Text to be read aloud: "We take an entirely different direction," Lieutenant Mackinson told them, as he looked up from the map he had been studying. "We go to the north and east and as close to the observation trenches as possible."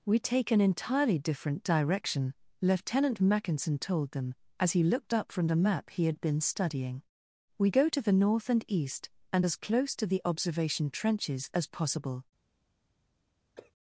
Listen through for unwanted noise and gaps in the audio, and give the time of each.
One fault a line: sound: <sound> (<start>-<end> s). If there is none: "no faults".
sound: cough (13.6-13.7 s)